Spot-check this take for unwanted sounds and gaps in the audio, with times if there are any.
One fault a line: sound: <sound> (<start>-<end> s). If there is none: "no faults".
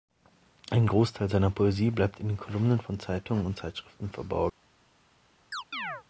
sound: chirp (5.5-6.0 s)